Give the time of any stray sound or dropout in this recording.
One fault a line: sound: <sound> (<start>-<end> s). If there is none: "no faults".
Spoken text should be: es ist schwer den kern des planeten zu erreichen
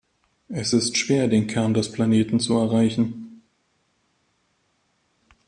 no faults